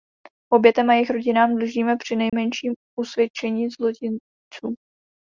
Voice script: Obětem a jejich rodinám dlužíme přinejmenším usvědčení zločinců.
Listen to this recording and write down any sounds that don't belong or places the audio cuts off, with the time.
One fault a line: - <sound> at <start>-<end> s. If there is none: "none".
- dropout at 2.3-2.3 s